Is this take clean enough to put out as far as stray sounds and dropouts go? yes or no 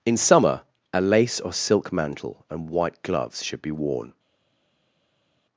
yes